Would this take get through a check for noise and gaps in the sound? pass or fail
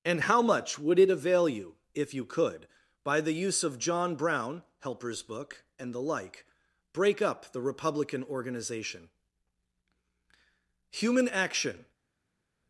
pass